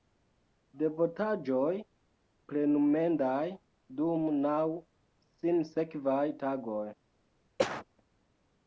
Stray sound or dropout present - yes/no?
yes